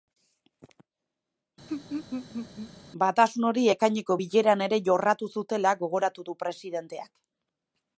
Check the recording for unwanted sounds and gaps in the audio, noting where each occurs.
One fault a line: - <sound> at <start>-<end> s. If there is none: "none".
- laugh at 1.7-2.7 s